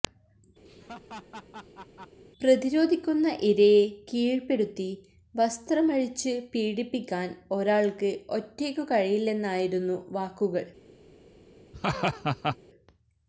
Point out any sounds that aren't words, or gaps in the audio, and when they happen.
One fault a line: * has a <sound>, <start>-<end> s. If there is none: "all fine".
* has a laugh, 0.7-2.2 s
* has a laugh, 11.7-12.6 s